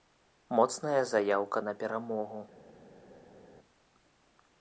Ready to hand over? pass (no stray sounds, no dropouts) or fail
pass